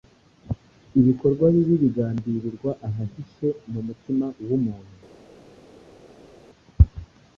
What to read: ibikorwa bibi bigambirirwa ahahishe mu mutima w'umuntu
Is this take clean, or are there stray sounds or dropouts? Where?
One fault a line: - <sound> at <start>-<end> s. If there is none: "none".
none